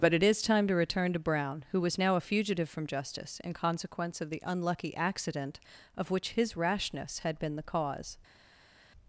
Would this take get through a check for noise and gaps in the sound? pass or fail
pass